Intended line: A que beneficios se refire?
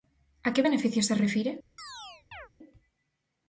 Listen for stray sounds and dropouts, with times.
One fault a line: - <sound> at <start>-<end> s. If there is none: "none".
- chirp at 1.8-2.5 s